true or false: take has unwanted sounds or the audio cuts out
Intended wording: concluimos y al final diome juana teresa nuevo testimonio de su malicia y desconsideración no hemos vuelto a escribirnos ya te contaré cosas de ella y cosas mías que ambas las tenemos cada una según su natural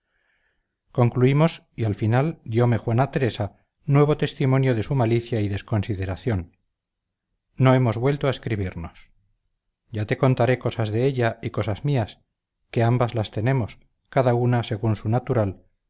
false